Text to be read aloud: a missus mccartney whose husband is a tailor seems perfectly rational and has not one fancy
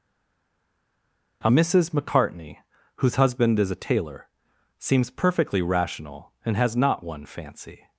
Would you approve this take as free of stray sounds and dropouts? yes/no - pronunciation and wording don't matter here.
yes